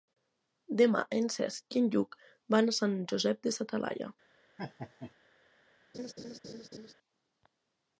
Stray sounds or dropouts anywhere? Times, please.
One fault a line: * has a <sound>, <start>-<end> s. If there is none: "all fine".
* has a laugh, 4.6-5.1 s
* has a laugh, 5.9-6.9 s